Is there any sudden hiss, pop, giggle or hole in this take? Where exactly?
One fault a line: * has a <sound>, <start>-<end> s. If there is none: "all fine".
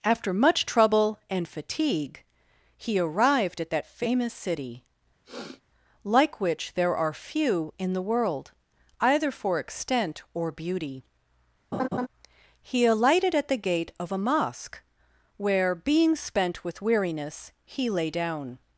* has a sniff, 5.2-5.6 s
* has a laugh, 11.7-12.1 s